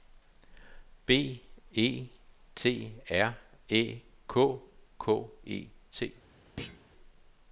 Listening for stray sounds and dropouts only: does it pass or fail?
fail